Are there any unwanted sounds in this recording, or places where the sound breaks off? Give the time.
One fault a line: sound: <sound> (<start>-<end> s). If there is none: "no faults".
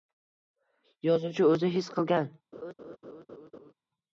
sound: laugh (2.5-3.7 s)